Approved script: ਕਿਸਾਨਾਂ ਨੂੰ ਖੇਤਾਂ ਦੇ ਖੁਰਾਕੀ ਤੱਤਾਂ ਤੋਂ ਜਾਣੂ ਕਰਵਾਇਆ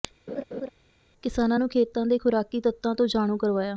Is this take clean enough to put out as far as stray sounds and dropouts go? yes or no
no